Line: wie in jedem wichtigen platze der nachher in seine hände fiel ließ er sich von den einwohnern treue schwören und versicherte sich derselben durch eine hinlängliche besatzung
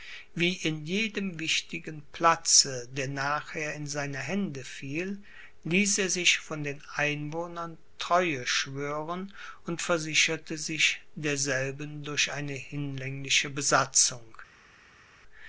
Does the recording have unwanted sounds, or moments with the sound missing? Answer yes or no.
no